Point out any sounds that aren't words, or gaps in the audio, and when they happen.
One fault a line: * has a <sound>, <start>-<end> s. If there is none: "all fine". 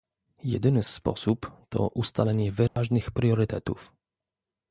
* has a dropout, 2.7-2.8 s